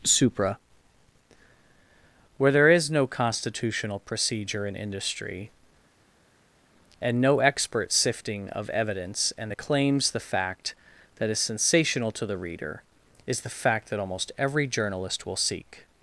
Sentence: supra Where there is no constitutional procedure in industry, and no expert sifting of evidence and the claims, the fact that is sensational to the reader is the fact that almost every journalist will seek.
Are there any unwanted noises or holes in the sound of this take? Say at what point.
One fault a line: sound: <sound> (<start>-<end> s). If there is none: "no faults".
no faults